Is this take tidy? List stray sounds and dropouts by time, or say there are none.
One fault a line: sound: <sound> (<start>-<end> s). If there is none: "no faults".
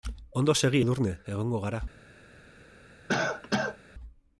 sound: cough (3.1-3.8 s)